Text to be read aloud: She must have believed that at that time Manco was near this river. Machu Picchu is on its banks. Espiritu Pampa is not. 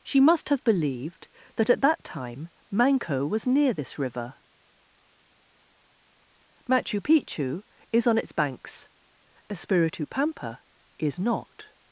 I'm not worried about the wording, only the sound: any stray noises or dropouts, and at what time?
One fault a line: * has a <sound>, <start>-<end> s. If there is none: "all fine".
all fine